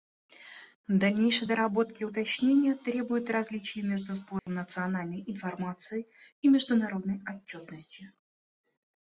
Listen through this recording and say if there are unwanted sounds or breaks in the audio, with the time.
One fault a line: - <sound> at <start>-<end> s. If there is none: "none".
- dropout at 4.4-4.5 s